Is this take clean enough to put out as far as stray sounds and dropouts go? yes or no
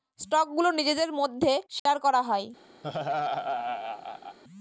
no